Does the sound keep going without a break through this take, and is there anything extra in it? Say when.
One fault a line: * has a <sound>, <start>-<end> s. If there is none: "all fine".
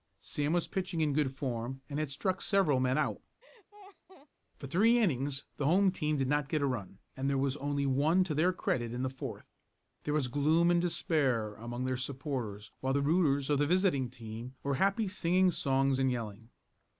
* has a laugh, 3.4-4.3 s